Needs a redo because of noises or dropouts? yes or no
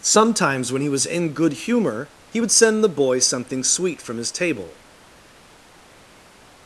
no